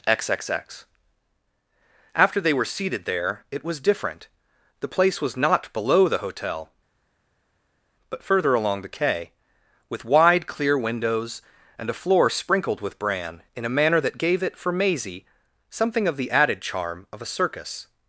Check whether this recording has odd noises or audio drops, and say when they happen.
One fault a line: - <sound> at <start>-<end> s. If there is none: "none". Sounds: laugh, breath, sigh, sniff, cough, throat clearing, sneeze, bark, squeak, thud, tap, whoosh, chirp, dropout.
none